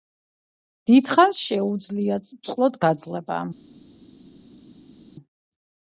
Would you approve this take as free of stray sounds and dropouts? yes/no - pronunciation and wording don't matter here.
yes